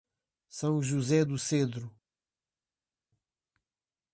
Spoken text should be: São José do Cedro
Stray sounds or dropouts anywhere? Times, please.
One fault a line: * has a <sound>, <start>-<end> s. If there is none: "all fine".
all fine